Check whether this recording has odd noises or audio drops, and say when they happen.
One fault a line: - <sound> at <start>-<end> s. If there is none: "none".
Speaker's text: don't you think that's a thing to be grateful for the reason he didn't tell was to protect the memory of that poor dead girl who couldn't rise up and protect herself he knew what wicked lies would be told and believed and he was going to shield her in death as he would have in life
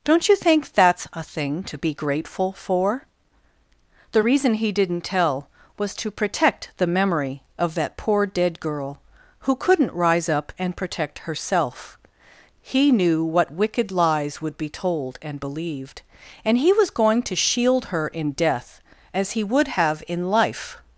none